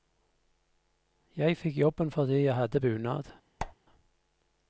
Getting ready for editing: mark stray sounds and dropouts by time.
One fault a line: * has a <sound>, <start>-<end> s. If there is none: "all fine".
* has a squeak, 3.6-3.7 s